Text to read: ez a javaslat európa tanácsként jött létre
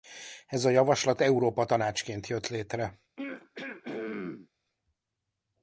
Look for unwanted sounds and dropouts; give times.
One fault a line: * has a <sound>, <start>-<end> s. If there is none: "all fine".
* has a throat clearing, 3.2-4.5 s